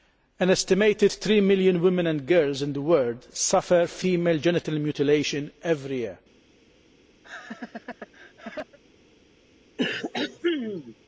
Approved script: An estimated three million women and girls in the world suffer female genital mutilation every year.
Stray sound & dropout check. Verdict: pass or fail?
fail